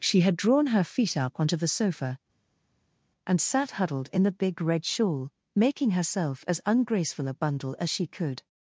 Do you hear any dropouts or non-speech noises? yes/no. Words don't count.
no